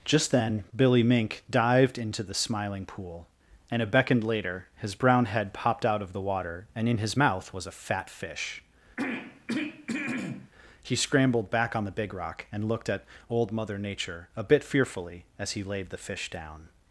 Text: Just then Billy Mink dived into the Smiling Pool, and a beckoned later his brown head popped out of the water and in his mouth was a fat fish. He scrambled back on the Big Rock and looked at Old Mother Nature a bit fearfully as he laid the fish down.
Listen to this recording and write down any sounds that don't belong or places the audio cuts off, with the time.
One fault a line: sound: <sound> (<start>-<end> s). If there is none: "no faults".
sound: throat clearing (9.0-10.5 s)